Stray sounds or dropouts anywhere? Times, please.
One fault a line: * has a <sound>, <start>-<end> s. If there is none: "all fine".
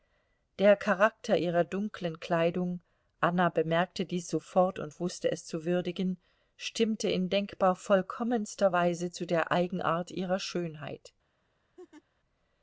* has a laugh, 11.8-12.0 s